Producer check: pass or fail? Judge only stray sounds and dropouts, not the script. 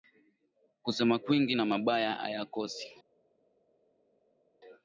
pass